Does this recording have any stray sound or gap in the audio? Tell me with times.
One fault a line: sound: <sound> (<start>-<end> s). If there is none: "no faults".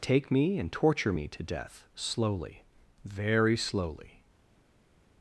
no faults